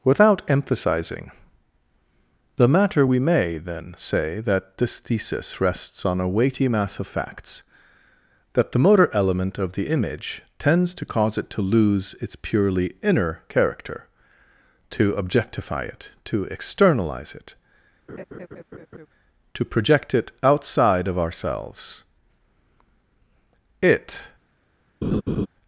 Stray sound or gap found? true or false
true